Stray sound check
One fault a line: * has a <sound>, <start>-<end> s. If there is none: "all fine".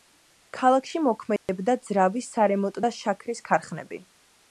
* has a dropout, 1.4-1.5 s